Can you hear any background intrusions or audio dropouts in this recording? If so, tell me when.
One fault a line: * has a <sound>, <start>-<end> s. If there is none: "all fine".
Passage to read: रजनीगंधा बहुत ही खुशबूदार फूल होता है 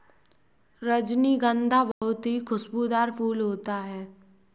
* has a dropout, 1.9-2.0 s